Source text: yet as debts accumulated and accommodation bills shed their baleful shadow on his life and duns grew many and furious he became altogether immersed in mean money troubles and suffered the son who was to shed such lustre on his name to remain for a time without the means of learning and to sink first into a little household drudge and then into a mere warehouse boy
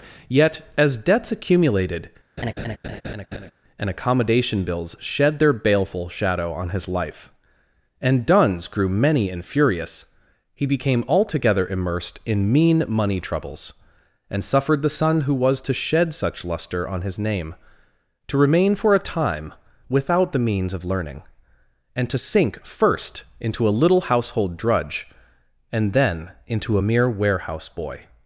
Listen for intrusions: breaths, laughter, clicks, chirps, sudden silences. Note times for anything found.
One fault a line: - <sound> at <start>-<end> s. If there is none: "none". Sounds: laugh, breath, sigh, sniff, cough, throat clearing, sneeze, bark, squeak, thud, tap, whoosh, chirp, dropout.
- laugh at 2.4-3.5 s